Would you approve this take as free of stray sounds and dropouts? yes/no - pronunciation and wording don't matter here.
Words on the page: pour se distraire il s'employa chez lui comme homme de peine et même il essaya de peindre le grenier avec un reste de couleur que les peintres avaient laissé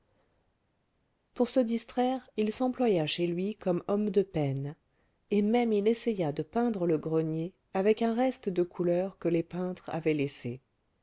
yes